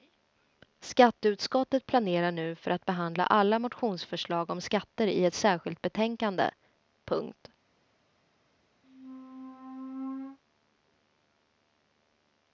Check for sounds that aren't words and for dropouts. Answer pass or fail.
fail